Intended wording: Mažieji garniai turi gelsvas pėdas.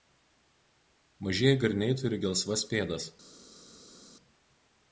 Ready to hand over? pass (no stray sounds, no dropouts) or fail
pass